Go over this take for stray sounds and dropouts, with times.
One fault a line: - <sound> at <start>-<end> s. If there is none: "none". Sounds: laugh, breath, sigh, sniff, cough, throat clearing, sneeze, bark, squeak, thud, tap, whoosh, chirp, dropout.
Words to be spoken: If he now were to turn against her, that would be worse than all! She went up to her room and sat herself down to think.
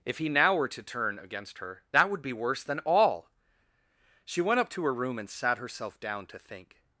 none